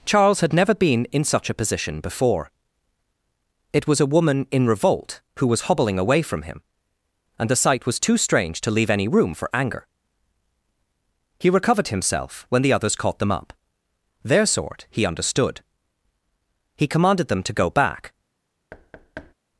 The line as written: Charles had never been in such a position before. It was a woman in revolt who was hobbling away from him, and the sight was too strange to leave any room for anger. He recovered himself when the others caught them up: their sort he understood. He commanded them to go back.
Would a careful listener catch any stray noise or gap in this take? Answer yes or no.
yes